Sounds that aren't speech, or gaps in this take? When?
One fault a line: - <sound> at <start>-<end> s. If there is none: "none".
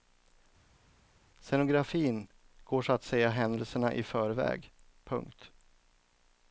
none